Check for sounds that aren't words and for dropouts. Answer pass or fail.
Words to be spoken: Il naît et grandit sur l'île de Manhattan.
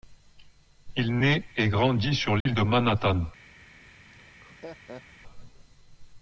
fail